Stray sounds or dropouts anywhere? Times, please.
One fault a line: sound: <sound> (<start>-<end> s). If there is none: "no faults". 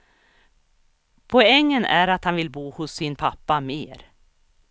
no faults